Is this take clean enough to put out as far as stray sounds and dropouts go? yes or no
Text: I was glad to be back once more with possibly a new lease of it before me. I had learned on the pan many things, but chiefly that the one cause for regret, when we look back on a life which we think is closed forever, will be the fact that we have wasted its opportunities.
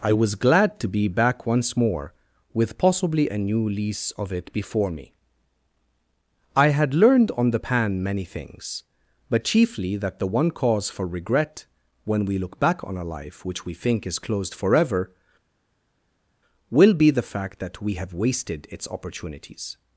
yes